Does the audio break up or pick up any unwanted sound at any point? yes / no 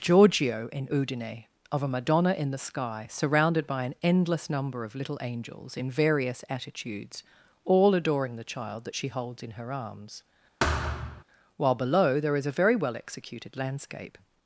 yes